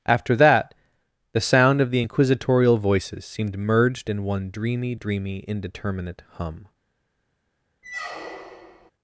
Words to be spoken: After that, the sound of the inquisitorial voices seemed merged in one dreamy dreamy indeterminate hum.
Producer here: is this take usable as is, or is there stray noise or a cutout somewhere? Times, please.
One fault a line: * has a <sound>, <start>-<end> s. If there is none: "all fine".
* has a squeak, 7.8-8.9 s